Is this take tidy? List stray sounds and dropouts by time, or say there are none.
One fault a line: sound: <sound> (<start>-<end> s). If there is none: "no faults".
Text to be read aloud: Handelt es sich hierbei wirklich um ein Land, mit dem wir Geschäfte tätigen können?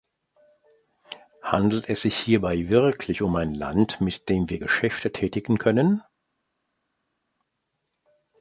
no faults